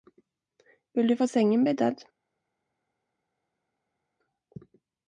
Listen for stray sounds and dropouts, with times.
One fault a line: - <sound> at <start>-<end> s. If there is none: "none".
none